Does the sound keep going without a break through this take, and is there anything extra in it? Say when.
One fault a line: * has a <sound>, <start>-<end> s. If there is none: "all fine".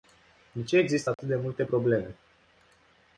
* has a dropout, 1.1-1.2 s